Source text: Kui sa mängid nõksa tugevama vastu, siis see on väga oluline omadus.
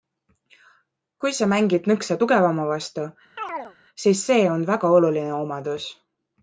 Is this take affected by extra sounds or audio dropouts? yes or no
yes